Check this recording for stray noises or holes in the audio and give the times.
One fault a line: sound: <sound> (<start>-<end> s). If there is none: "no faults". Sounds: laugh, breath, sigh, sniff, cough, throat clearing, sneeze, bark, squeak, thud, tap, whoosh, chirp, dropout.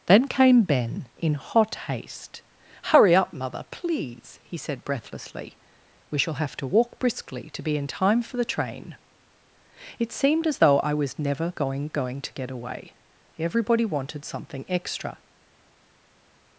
no faults